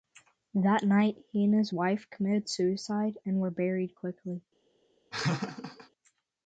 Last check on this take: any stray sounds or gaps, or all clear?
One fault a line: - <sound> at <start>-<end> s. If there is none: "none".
- laugh at 5.1-5.9 s